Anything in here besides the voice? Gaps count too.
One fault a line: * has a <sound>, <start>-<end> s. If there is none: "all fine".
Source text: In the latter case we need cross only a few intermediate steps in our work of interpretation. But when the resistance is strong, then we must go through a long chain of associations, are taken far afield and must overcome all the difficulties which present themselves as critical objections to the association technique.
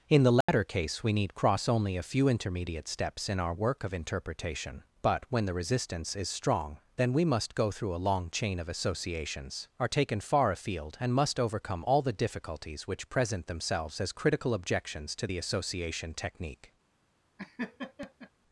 * has a dropout, 0.4-0.5 s
* has a laugh, 17.4-18.3 s